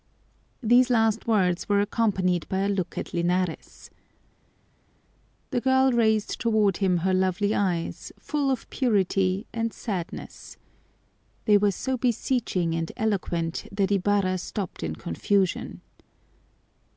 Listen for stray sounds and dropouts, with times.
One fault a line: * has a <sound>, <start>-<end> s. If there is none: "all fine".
all fine